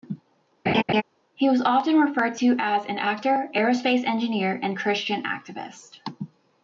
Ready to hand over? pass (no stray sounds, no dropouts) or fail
fail